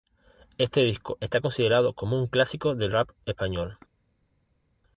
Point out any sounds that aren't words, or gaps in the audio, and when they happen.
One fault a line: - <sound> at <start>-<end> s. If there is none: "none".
none